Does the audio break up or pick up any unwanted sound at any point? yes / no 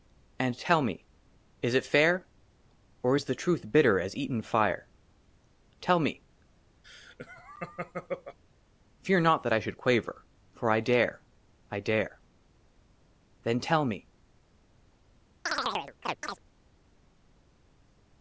yes